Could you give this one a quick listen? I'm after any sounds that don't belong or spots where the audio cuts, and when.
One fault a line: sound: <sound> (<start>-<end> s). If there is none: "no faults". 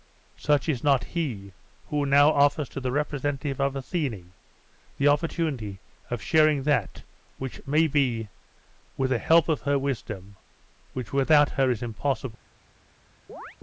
sound: chirp (13.3-13.6 s)